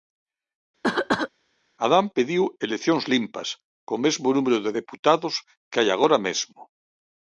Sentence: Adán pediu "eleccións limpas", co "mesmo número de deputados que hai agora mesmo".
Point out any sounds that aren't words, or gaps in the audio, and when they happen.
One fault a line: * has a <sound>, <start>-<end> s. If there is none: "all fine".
* has a cough, 0.8-1.3 s